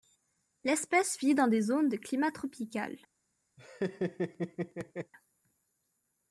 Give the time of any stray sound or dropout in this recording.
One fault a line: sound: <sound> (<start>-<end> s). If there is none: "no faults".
sound: laugh (3.6-5.1 s)